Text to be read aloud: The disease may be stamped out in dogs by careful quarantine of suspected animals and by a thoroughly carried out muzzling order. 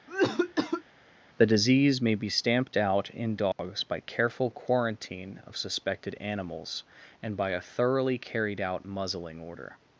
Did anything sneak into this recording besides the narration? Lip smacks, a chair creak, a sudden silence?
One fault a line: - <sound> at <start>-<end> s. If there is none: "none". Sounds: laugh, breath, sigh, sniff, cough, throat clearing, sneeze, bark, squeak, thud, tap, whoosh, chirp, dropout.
- cough at 0.1-0.8 s
- dropout at 3.5-3.6 s